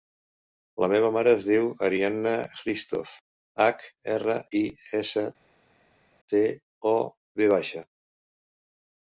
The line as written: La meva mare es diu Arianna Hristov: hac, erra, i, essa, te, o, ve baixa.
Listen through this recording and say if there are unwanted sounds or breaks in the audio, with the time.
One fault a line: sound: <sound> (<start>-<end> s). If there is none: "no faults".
no faults